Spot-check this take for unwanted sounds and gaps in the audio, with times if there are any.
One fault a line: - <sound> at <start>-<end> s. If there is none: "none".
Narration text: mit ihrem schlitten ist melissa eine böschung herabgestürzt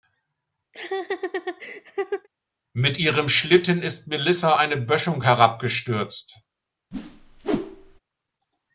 - laugh at 0.7-2.3 s
- whoosh at 6.9-8.0 s